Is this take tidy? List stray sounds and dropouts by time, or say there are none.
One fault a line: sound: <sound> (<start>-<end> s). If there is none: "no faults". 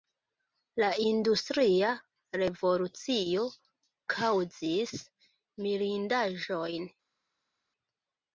no faults